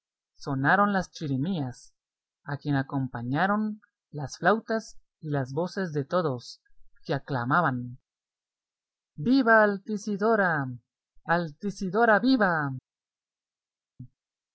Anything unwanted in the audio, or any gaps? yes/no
no